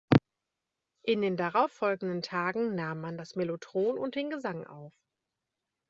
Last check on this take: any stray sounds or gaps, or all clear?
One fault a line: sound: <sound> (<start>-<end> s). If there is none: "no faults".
no faults